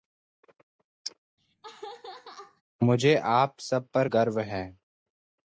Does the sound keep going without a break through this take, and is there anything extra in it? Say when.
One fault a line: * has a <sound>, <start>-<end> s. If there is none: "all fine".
* has a laugh, 1.4-2.6 s